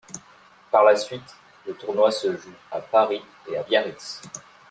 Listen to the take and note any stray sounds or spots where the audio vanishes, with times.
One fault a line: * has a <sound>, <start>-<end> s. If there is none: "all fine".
all fine